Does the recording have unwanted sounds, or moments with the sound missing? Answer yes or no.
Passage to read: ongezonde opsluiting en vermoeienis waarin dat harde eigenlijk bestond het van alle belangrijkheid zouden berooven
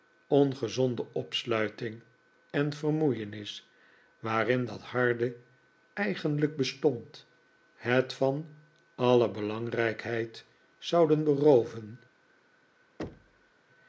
yes